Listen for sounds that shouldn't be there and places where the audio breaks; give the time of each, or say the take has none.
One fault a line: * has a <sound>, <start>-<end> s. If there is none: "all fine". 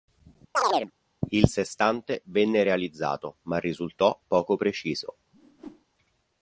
* has a chirp, 0.5-0.9 s
* has a whoosh, 5.3-5.8 s